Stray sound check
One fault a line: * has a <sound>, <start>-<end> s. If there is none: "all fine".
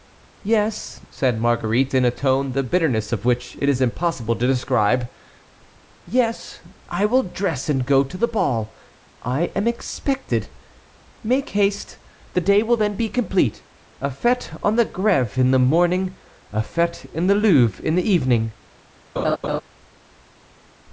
* has a laugh, 19.2-19.6 s